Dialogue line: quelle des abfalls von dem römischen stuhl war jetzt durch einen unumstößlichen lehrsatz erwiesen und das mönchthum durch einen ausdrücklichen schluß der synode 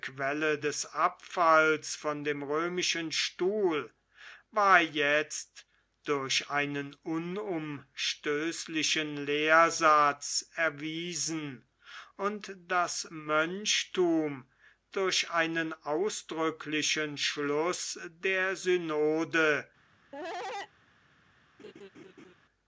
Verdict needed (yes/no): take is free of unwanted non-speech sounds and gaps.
no